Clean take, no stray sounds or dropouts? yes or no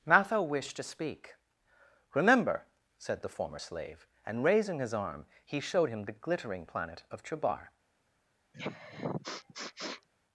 no